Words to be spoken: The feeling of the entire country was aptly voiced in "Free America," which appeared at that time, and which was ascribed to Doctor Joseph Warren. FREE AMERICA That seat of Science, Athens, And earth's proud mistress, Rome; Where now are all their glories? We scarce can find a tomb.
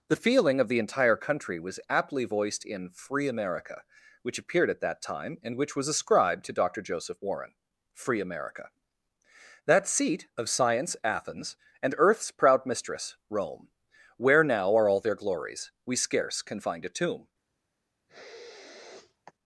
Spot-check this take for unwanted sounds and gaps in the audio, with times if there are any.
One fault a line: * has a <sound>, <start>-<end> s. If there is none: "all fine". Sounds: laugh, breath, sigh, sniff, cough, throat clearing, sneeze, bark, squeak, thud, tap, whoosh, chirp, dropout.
* has a sniff, 18.1-19.3 s